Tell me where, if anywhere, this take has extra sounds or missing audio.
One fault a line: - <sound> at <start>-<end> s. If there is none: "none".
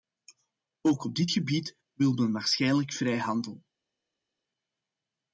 none